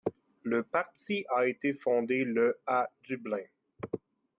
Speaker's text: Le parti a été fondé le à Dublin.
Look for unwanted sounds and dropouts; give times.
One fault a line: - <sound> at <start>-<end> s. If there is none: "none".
none